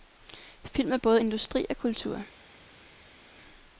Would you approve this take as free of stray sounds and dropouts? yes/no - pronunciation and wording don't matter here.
yes